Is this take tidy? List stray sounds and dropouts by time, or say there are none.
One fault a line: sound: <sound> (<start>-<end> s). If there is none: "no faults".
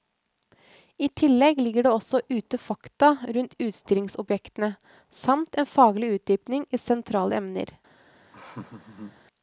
sound: laugh (8.3-9.2 s)